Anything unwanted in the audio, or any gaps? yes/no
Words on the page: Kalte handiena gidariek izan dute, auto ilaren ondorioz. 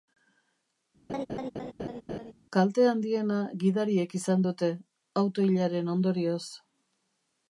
yes